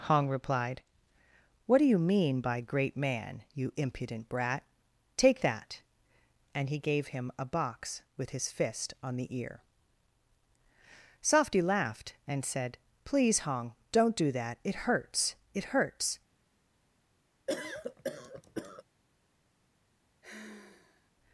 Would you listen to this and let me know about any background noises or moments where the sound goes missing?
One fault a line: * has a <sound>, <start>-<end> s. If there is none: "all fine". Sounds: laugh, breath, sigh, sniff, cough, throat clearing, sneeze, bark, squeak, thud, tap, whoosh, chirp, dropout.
* has a cough, 17.5-18.8 s
* has a sigh, 20.2-21.1 s